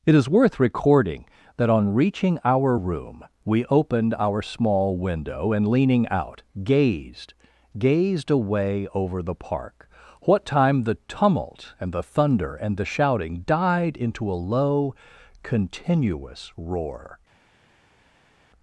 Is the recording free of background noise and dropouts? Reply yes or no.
yes